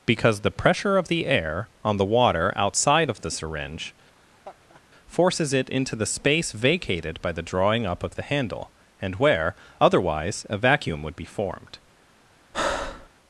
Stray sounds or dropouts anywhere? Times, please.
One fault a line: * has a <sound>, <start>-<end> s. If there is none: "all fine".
* has a laugh, 4.1-4.8 s
* has a breath, 12.5-13.1 s